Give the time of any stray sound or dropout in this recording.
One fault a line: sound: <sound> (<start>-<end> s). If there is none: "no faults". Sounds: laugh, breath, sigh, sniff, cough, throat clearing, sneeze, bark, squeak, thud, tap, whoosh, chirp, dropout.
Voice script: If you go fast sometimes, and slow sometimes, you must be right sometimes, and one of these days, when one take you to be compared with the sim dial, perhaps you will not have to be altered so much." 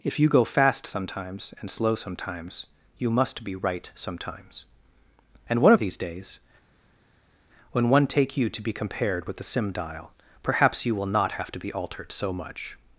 no faults